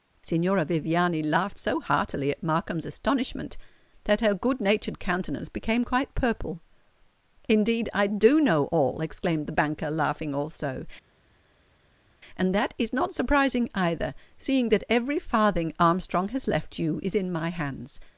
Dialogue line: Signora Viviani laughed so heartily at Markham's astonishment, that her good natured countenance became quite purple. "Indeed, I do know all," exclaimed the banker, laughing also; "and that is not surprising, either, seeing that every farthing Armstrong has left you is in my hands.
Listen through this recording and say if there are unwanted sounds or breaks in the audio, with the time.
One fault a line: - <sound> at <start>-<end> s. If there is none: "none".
none